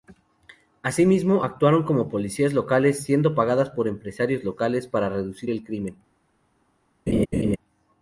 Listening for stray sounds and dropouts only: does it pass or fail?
fail